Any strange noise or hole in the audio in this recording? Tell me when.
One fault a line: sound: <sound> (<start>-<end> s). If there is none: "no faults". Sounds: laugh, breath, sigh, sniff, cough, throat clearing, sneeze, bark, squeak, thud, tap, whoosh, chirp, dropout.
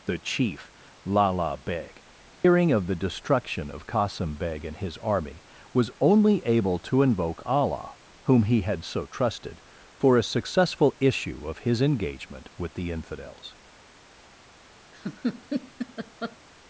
sound: dropout (2.3-2.4 s)
sound: laugh (14.9-16.4 s)